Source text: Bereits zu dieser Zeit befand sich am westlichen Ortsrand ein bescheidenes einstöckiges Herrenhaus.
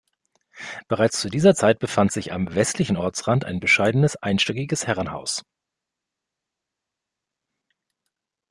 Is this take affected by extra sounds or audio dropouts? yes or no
no